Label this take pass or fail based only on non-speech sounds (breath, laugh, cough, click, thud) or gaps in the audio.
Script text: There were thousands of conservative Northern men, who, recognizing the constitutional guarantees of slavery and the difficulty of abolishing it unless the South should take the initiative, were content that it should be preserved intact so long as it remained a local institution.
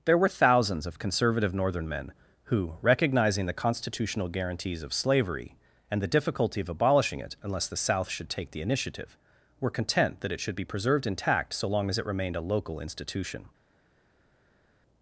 pass